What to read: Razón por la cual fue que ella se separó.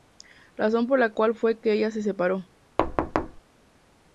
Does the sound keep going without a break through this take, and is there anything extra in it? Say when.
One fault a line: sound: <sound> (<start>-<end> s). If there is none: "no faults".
sound: thud (2.8-3.4 s)